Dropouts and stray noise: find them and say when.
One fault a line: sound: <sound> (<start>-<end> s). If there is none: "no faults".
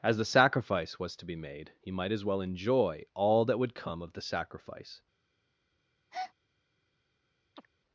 sound: breath (6.1-6.3 s)
sound: chirp (7.6-7.7 s)